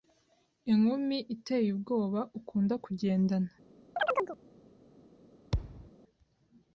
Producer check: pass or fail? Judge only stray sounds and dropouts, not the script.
fail